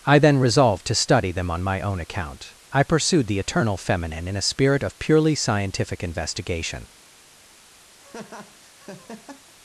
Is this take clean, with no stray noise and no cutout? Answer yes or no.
no